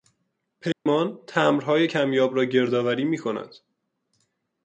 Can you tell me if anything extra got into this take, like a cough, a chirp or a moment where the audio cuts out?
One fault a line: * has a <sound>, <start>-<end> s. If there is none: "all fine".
* has a dropout, 0.7-0.9 s